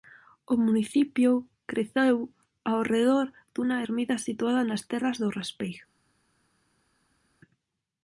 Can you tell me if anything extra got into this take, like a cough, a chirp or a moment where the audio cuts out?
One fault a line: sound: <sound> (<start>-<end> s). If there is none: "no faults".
no faults